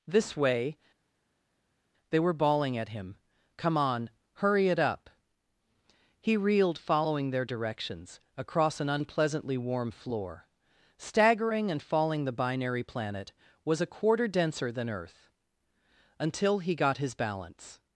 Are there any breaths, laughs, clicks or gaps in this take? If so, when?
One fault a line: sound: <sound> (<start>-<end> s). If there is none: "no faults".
no faults